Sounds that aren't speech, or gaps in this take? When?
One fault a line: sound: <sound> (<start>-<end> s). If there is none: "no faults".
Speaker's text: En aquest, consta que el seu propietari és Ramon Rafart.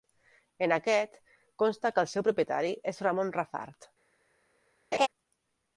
sound: laugh (4.9-5.1 s)